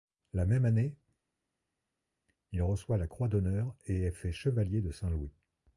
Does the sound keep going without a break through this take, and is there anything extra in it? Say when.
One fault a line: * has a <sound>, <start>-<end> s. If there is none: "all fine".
all fine